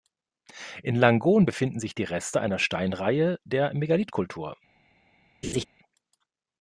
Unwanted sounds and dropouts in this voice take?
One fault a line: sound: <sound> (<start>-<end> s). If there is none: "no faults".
sound: laugh (5.4-5.7 s)